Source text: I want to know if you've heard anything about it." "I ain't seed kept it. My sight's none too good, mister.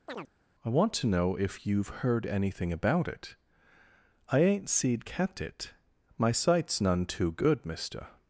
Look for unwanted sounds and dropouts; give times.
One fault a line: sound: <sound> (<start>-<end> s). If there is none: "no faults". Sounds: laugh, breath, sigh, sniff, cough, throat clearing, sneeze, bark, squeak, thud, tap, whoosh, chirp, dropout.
sound: chirp (0.1-0.3 s)